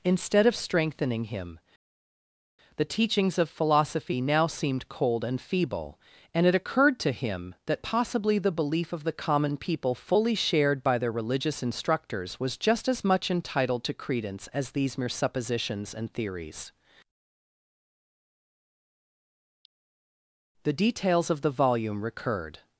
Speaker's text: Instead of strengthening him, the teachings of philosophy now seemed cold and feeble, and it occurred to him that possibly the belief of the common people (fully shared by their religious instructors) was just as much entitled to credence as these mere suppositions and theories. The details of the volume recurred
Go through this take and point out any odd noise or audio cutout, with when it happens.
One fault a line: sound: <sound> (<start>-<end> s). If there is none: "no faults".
no faults